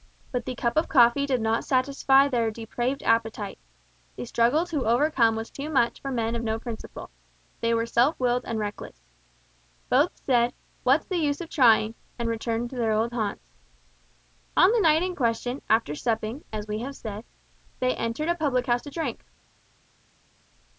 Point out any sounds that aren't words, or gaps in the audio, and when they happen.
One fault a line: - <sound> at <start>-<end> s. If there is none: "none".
none